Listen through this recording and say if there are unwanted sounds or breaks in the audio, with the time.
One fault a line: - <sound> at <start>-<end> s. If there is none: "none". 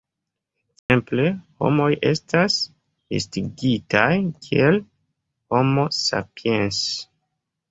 - dropout at 0.8-0.9 s